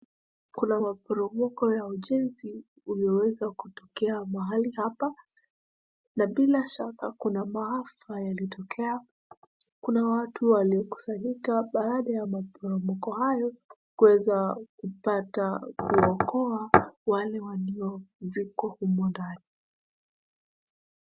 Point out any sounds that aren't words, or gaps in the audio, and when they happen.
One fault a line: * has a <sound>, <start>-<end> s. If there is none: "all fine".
all fine